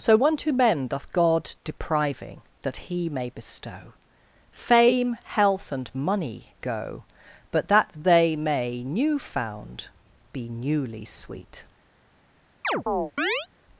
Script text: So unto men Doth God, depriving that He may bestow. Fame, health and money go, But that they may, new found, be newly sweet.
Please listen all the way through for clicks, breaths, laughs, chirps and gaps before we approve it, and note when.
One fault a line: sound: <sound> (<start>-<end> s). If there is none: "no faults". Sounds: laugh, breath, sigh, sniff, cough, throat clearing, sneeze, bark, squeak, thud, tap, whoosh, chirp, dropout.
sound: chirp (12.6-13.5 s)